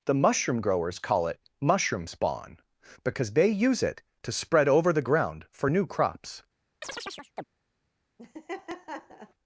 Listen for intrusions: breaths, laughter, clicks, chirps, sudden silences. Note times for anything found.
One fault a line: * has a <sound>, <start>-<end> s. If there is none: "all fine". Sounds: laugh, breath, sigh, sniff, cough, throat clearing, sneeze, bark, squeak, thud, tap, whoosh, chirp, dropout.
* has a chirp, 6.8-7.4 s
* has a laugh, 8.2-9.3 s